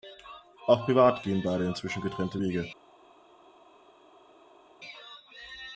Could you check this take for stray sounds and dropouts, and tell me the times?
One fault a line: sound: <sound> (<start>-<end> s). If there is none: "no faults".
no faults